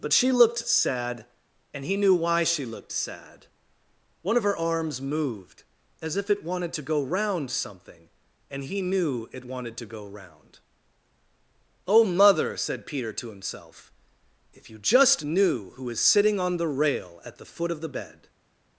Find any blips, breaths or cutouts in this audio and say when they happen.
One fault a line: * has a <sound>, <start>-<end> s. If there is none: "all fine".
all fine